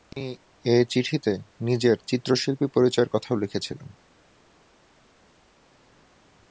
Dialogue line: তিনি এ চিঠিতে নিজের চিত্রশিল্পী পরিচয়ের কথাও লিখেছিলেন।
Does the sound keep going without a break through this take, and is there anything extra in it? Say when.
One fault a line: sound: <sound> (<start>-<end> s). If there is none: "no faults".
no faults